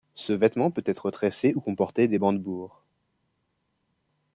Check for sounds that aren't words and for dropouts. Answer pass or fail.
pass